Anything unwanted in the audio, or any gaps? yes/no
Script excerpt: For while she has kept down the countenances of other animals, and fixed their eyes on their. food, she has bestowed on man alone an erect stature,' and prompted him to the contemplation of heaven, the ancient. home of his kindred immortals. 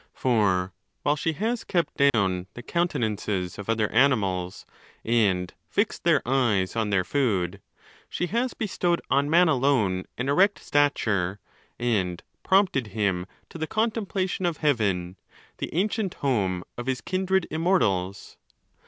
yes